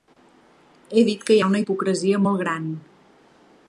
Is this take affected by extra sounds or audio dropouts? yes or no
no